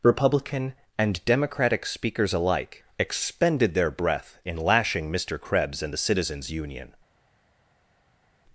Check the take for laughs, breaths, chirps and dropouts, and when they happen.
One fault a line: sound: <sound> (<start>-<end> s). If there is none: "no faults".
no faults